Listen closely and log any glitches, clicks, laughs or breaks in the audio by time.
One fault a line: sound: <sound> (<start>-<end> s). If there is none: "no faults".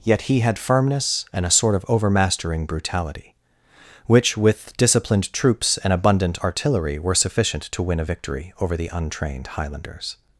no faults